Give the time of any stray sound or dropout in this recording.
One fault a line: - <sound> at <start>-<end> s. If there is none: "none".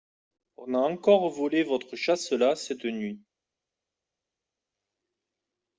none